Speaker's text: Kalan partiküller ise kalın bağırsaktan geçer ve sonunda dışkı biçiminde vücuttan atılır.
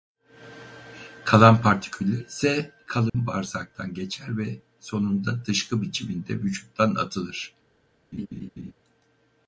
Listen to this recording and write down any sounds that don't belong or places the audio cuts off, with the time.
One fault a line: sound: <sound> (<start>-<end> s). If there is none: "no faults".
sound: dropout (3.1-3.1 s)
sound: laugh (8.1-8.7 s)